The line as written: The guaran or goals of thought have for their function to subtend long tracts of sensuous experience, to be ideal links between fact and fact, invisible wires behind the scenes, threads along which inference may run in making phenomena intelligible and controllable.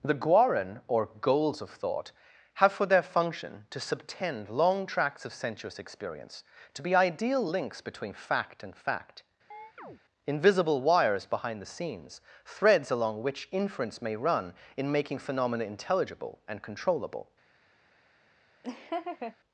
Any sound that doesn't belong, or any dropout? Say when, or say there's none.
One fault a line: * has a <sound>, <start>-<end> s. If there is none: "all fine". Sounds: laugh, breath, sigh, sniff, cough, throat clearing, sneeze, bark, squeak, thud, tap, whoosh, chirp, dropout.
* has a chirp, 9.5-10.0 s
* has a laugh, 18.6-19.4 s